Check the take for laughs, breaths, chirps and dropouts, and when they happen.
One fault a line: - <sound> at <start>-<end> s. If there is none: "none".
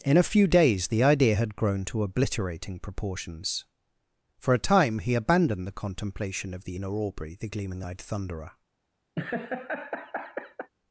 - laugh at 9.2-10.7 s